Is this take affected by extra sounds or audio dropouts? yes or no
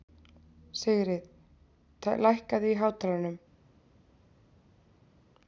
no